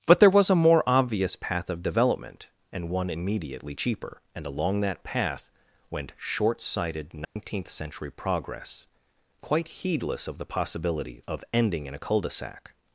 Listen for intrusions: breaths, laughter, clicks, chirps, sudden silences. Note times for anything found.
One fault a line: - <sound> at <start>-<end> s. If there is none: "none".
- dropout at 7.2-7.4 s